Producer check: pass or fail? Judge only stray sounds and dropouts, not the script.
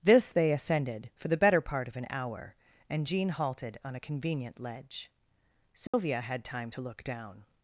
fail